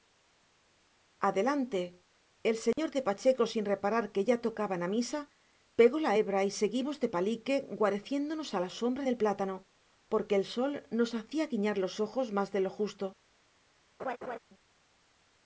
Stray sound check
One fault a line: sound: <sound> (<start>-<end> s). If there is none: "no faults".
sound: dropout (2.7-2.8 s)
sound: laugh (14.0-14.4 s)